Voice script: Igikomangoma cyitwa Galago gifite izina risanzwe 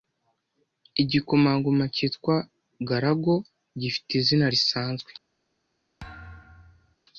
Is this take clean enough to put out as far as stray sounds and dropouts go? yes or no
no